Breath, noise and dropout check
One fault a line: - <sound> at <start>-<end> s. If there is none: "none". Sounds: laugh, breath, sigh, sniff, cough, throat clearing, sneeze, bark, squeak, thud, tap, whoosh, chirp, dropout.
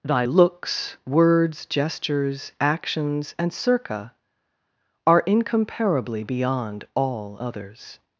none